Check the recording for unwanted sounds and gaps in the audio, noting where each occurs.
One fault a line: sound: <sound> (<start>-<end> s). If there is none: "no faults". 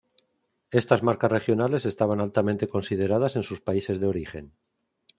no faults